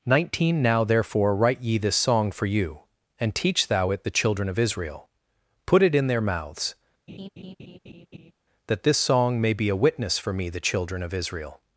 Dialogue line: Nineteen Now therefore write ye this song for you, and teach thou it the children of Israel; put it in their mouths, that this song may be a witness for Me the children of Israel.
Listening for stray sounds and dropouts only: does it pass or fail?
fail